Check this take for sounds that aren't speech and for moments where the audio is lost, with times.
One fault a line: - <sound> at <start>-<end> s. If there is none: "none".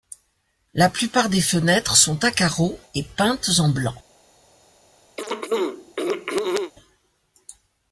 - throat clearing at 5.2-6.7 s